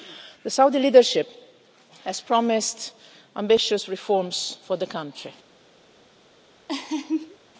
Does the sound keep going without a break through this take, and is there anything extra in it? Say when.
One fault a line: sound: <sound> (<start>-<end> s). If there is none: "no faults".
sound: laugh (6.7-7.4 s)